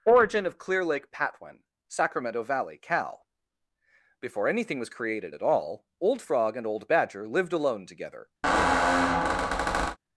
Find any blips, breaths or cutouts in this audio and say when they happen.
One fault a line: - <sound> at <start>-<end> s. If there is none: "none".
- squeak at 8.4-10.0 s